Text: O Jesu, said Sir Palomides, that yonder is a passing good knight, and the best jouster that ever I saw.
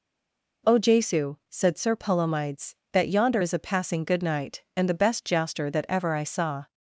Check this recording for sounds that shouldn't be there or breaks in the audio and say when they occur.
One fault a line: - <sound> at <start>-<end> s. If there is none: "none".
none